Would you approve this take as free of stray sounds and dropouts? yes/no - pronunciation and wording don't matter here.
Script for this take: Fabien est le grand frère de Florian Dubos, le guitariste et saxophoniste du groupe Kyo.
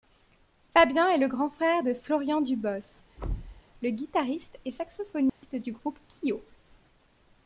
no